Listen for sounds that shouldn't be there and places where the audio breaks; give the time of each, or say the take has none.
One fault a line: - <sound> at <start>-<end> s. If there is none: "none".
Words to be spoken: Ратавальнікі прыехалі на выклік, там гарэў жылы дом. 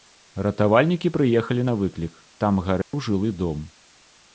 - dropout at 2.8-2.9 s